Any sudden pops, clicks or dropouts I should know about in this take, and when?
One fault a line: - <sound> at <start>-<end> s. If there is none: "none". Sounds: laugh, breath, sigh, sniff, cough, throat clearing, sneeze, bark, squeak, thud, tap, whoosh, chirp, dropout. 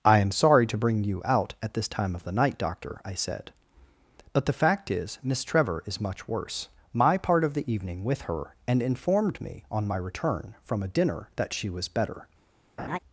- laugh at 12.8-13.0 s